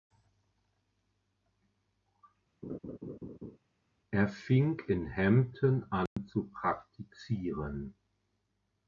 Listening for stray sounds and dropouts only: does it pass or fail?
fail